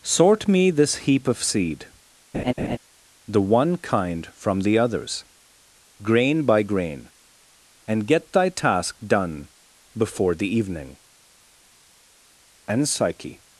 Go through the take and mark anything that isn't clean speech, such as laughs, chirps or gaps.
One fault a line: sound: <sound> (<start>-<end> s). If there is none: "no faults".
sound: laugh (2.3-2.8 s)